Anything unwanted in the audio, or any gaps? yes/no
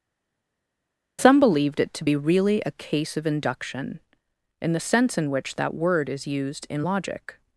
no